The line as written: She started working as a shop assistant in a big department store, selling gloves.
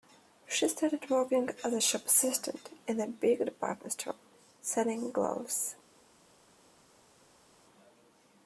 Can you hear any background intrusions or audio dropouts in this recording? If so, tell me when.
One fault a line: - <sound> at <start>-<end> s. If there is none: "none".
none